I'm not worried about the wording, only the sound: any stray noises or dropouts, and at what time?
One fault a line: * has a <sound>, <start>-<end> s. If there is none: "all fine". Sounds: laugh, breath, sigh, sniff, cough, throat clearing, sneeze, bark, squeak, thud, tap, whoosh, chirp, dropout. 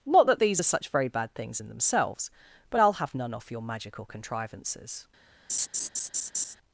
* has a laugh, 5.5-6.6 s